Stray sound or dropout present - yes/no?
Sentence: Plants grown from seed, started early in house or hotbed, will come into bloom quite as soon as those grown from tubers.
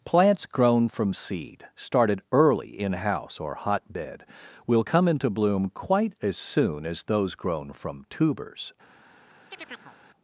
yes